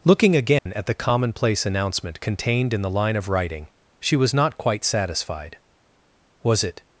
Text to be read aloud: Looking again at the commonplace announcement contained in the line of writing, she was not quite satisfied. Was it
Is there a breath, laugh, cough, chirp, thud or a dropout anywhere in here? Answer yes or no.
yes